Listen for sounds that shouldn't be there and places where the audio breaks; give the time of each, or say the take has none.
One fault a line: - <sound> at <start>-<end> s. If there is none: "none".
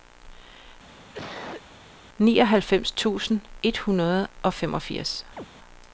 - cough at 0.9-1.6 s
- chirp at 5.4-5.5 s